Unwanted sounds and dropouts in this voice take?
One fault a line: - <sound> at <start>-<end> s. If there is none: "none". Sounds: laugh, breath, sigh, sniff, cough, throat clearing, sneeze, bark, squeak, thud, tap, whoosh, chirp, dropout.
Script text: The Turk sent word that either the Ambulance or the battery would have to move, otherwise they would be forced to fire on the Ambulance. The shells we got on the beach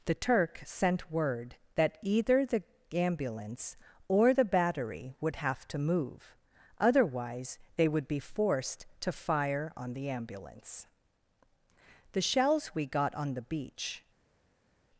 none